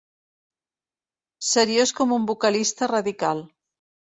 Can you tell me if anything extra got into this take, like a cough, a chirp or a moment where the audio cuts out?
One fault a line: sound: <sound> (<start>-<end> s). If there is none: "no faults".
no faults